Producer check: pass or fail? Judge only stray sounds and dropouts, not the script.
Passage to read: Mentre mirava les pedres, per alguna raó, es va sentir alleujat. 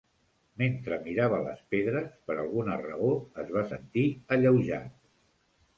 pass